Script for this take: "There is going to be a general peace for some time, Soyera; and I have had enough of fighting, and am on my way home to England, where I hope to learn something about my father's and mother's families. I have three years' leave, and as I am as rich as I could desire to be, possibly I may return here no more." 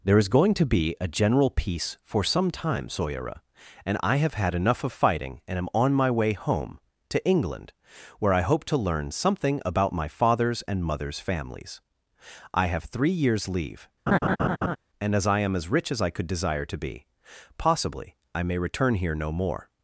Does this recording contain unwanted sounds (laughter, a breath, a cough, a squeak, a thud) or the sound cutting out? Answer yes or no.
yes